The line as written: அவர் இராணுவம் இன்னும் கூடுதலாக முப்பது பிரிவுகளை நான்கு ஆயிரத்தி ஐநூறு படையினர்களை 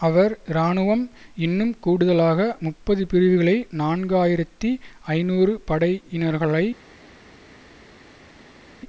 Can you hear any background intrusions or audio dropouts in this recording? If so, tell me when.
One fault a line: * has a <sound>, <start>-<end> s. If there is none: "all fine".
all fine